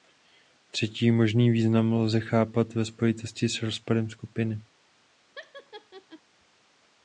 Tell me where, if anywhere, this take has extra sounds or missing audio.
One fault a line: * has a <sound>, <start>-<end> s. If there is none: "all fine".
* has a laugh, 5.4-6.2 s